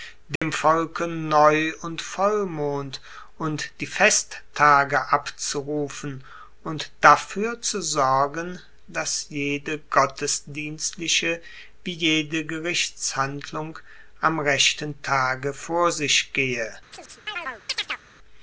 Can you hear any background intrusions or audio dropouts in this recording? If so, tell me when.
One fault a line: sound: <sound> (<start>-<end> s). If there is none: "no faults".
sound: dropout (0.4-0.4 s)
sound: chirp (16.9-18.0 s)